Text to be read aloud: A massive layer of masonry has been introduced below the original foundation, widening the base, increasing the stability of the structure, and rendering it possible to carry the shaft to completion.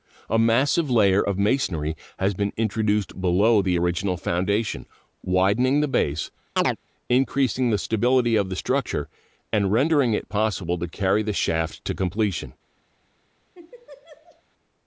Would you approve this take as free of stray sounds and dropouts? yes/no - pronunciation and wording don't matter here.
no